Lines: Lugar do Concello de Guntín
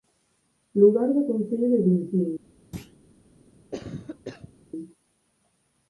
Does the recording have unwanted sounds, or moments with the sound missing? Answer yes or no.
yes